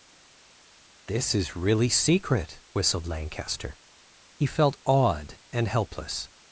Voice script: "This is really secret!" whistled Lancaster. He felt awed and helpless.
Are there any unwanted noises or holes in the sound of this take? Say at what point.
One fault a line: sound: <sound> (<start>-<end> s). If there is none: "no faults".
no faults